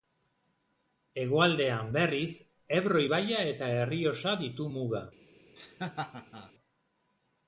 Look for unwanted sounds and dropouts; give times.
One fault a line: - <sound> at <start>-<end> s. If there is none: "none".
- laugh at 5.6-6.5 s